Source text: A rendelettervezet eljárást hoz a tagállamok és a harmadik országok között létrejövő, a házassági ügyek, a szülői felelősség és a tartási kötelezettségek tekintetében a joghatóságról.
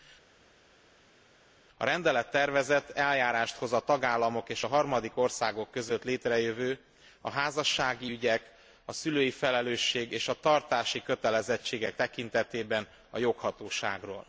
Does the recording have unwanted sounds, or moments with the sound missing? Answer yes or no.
no